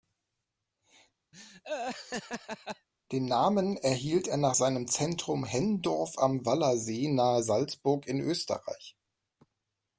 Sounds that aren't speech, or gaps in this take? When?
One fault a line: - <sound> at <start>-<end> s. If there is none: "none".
- laugh at 1.3-2.9 s